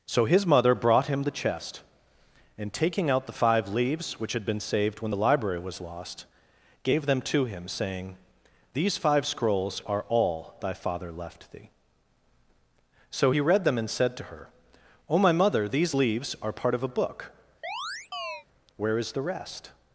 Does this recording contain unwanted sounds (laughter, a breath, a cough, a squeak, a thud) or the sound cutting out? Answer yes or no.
yes